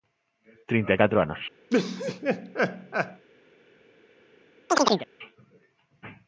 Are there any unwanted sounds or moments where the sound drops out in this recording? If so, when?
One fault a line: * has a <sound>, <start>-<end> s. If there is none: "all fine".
* has a laugh, 1.7-3.2 s
* has a chirp, 4.7-5.1 s